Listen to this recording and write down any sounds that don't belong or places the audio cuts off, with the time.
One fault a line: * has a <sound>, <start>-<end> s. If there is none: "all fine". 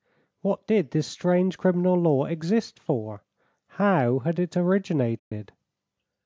* has a dropout, 5.2-5.3 s